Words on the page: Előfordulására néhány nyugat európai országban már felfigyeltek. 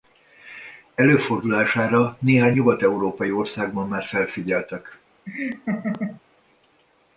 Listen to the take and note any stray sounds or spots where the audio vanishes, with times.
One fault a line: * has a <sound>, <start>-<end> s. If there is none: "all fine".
* has a laugh, 5.3-6.2 s